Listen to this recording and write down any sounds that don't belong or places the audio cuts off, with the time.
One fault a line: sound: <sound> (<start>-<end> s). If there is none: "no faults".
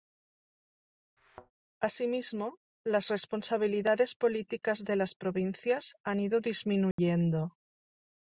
sound: thud (1.2-1.5 s)
sound: dropout (6.9-7.0 s)